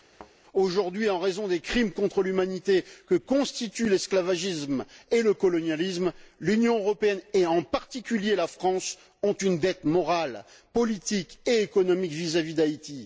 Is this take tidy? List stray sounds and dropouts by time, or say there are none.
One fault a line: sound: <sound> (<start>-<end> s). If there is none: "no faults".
sound: thud (0.1-0.3 s)